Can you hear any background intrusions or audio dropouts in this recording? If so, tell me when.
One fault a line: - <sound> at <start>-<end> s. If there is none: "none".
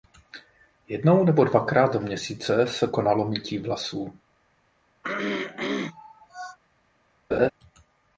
- throat clearing at 5.0-6.6 s
- laugh at 7.3-7.5 s